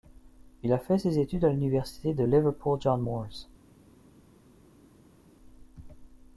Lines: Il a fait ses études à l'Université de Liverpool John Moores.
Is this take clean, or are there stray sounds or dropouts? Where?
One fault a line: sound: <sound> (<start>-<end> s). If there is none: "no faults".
no faults